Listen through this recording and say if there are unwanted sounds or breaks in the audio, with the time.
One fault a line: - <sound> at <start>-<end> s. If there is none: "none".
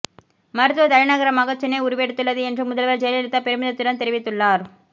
none